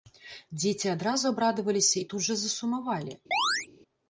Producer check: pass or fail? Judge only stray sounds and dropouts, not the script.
fail